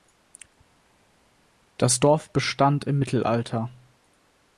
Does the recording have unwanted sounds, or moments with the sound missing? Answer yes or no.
no